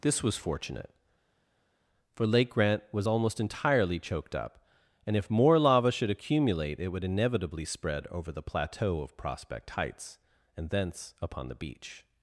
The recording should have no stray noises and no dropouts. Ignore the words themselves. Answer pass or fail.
pass